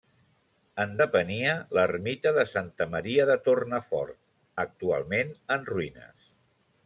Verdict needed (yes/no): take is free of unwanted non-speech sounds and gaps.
yes